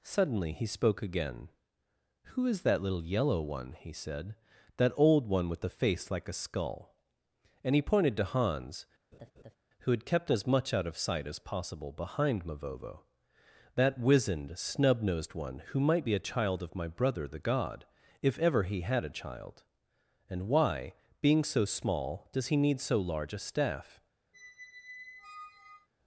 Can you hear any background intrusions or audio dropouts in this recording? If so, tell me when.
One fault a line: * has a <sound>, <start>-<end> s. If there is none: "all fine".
* has a laugh, 9.1-9.6 s
* has a squeak, 24.3-25.9 s